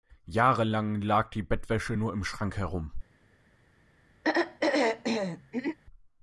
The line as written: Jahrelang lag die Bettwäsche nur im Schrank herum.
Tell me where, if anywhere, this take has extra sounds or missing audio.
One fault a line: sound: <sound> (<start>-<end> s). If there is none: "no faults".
sound: throat clearing (4.2-5.8 s)